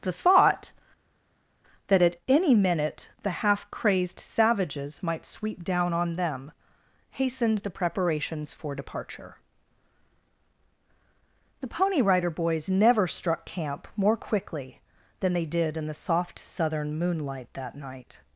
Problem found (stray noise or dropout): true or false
false